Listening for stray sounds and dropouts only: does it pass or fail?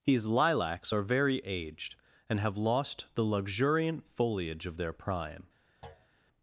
fail